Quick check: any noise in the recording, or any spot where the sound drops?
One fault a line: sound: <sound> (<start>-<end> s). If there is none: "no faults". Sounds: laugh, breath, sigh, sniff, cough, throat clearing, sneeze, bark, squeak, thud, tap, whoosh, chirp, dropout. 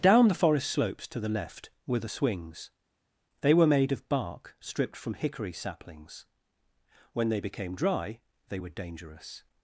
no faults